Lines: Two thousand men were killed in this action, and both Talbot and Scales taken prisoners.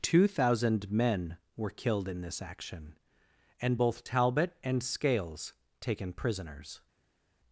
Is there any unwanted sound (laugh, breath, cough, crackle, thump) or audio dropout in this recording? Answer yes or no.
no